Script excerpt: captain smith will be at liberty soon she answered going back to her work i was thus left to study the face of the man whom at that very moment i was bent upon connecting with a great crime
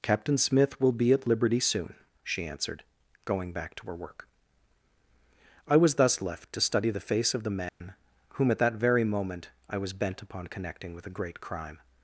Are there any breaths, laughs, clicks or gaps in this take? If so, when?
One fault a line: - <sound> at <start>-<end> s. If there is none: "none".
- dropout at 7.7-7.8 s